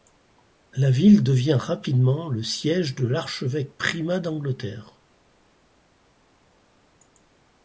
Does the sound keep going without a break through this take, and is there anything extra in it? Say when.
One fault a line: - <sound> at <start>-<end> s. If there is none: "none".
none